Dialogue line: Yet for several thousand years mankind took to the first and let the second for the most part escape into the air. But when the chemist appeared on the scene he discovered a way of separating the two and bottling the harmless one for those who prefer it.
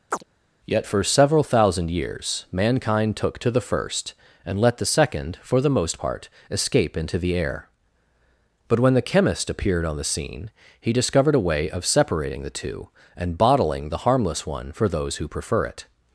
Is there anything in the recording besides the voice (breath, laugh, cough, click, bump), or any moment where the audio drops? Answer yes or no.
yes